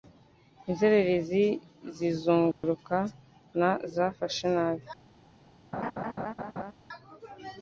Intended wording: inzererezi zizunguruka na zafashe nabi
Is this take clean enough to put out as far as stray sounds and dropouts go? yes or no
no